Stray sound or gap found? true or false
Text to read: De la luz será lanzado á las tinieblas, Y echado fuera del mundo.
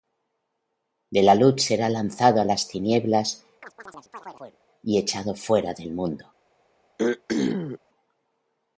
true